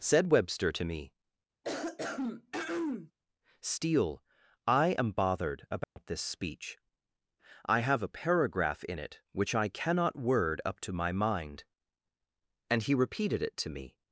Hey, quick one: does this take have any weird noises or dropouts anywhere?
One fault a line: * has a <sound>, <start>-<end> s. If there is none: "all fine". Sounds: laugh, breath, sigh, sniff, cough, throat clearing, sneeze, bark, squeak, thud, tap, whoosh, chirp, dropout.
* has a throat clearing, 1.6-3.1 s
* has a dropout, 5.8-6.0 s